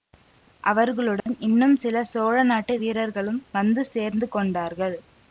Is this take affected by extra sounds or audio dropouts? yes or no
yes